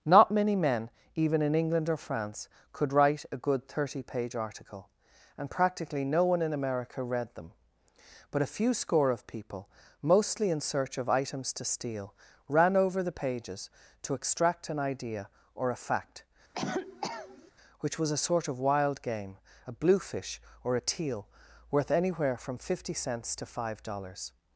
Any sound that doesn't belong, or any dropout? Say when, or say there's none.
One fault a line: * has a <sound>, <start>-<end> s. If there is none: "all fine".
* has a cough, 16.5-17.5 s